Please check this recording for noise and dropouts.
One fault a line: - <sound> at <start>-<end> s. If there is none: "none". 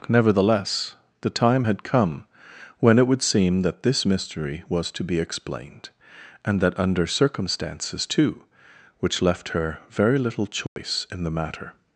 - dropout at 10.7-10.8 s